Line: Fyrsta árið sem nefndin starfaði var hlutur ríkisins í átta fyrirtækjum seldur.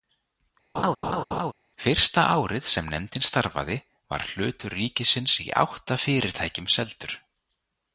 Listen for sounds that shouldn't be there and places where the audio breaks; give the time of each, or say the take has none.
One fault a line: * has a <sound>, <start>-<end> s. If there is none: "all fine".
* has a laugh, 0.7-1.5 s